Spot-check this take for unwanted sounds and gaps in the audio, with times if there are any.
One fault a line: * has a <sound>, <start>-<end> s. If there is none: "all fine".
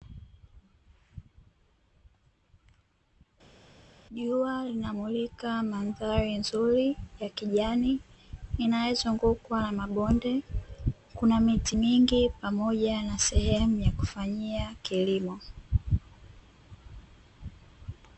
all fine